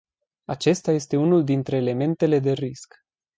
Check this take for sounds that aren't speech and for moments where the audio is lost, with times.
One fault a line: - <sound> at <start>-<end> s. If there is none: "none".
none